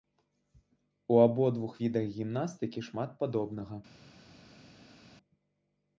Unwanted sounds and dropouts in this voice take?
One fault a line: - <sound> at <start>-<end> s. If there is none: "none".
none